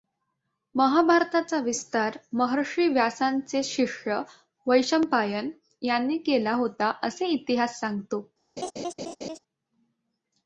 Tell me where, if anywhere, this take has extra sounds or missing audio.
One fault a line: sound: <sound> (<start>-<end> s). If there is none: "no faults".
sound: laugh (8.6-9.4 s)